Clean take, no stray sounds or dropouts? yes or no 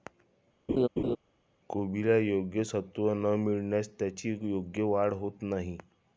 no